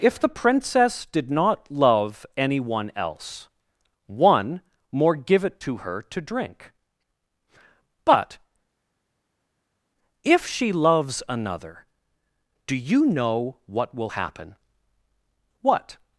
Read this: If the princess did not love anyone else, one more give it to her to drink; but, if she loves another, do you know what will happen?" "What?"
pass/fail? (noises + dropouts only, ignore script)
pass